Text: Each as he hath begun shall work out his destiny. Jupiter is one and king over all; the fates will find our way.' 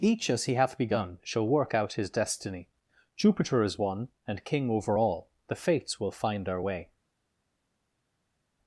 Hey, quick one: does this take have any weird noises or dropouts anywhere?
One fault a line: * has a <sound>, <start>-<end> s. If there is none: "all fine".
all fine